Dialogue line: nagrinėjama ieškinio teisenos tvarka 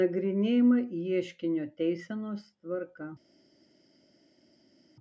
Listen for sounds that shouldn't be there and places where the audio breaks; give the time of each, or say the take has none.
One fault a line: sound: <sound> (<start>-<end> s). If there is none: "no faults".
no faults